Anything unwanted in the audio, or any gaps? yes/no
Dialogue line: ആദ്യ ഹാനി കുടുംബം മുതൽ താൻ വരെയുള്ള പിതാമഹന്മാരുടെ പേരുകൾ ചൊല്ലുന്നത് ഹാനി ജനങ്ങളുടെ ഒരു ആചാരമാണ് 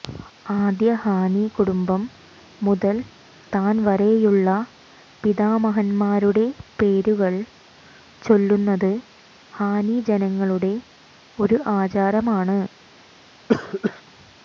yes